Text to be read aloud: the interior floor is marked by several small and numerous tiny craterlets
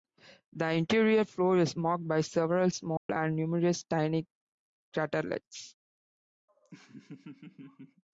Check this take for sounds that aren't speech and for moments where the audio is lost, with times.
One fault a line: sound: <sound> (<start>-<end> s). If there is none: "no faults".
sound: dropout (3.0-3.1 s)
sound: laugh (6.5-8.0 s)